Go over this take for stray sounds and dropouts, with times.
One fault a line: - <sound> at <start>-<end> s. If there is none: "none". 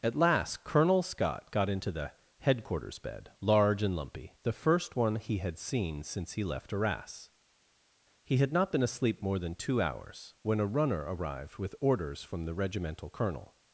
none